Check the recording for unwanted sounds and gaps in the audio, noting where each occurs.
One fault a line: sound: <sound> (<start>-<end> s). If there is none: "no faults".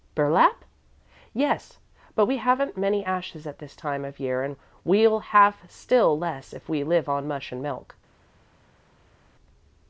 no faults